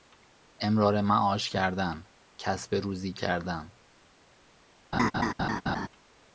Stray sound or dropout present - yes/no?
yes